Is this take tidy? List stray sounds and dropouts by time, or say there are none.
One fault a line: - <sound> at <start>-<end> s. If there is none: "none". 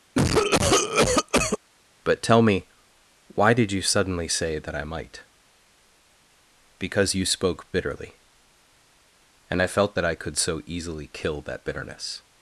- cough at 0.2-1.6 s